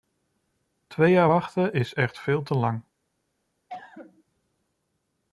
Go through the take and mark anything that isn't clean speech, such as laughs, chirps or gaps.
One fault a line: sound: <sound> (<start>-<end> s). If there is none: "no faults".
sound: cough (3.7-4.2 s)